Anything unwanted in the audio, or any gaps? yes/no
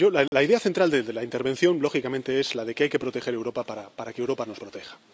yes